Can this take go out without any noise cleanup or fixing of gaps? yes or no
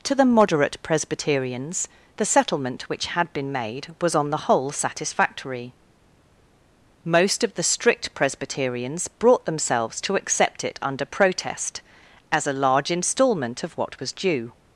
yes